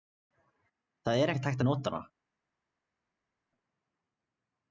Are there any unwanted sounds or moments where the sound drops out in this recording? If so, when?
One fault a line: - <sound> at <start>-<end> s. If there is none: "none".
none